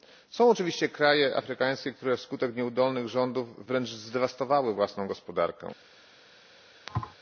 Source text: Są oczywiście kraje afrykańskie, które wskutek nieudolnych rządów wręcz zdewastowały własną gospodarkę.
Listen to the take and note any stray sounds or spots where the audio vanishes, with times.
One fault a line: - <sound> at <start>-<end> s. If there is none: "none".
- thud at 6.9-7.1 s